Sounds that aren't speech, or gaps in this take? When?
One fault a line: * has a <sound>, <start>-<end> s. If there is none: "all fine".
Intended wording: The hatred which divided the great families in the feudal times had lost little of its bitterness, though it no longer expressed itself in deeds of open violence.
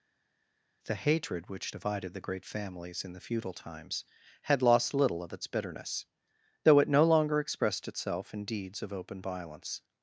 all fine